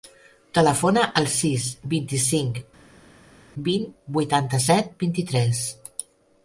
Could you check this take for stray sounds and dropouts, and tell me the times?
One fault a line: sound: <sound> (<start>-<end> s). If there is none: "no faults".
no faults